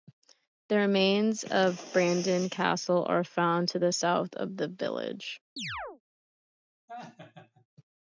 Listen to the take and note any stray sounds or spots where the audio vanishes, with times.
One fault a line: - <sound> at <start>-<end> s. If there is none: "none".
- chirp at 5.6-6.0 s
- laugh at 6.9-7.7 s